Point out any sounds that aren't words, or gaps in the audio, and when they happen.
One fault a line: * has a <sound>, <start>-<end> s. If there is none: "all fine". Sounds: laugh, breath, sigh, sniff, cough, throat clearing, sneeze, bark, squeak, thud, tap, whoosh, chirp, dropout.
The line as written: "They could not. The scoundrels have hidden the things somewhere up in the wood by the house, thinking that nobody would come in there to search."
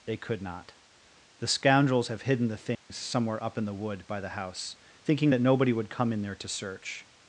* has a dropout, 2.7-2.9 s